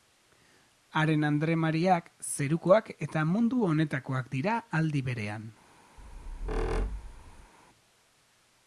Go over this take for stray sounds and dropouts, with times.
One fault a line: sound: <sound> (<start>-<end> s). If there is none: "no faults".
sound: squeak (6.0-7.5 s)